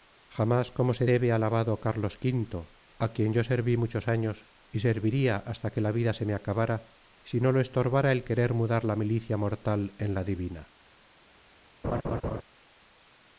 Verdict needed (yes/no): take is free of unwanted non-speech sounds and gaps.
no